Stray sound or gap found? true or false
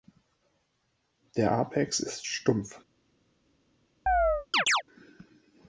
true